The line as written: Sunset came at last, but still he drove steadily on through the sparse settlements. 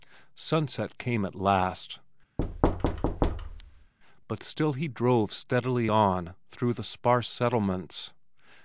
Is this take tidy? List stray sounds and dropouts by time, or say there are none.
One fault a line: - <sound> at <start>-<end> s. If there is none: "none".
- thud at 2.4-3.9 s